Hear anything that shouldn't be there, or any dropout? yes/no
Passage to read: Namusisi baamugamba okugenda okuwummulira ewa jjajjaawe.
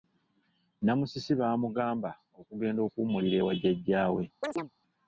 yes